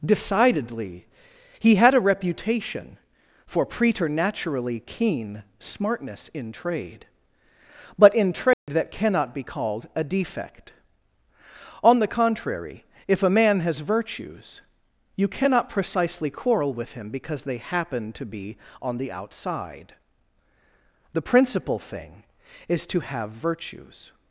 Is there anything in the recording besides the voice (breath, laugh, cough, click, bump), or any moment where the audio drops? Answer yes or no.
yes